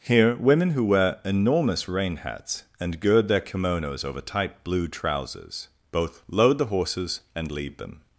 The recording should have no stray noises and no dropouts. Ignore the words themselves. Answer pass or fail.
pass